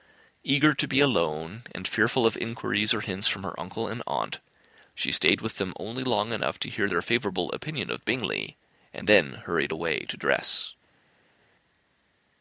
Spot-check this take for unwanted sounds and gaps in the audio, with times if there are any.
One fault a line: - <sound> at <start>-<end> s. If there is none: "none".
none